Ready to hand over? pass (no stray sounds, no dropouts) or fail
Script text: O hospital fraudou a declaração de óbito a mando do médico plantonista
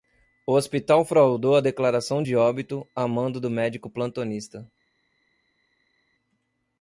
pass